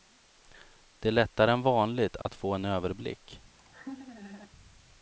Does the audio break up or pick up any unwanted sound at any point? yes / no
yes